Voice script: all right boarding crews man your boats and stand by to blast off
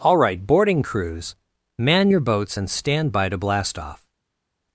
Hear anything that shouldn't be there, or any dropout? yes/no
no